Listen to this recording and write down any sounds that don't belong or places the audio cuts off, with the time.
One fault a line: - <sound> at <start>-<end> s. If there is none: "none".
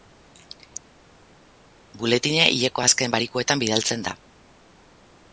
none